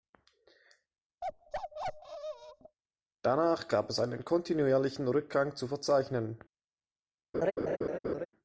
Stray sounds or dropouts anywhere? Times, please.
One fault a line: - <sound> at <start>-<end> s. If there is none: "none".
- bark at 1.2-2.8 s
- laugh at 7.3-8.3 s